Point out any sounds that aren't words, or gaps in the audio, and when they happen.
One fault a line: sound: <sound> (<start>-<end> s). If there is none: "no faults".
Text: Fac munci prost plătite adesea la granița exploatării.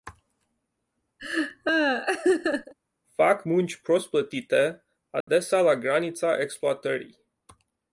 sound: laugh (1.2-2.7 s)
sound: dropout (5.2-5.3 s)